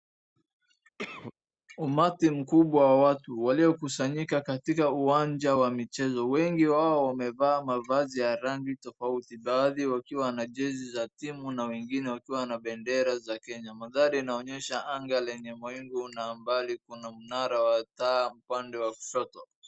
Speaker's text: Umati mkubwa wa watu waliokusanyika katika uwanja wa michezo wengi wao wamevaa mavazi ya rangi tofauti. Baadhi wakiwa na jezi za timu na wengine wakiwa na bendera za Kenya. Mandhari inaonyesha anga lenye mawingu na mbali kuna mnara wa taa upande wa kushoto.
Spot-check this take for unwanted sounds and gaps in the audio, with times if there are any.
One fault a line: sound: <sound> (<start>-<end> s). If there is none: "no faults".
sound: cough (1.0-1.3 s)